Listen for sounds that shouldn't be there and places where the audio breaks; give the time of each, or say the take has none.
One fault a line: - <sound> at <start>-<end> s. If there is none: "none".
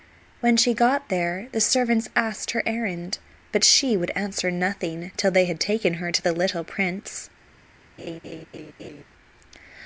- laugh at 8.0-9.0 s